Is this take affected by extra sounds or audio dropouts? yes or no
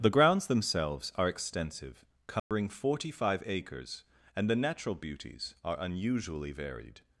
yes